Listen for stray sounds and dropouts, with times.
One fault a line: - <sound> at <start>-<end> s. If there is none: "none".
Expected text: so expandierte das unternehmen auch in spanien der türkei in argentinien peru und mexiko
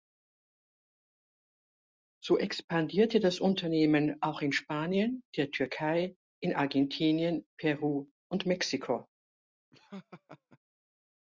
- laugh at 9.7-10.6 s